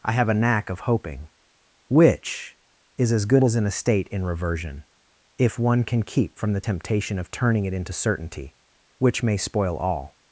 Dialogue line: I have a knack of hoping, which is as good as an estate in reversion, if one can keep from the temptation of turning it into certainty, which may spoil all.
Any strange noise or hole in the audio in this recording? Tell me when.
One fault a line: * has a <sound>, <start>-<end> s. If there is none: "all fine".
all fine